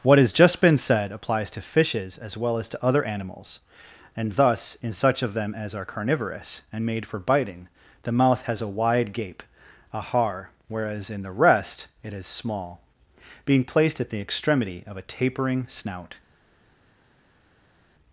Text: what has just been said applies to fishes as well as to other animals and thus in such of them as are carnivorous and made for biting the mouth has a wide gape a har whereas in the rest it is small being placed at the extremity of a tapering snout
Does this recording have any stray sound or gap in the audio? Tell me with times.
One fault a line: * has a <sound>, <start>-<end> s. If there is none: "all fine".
all fine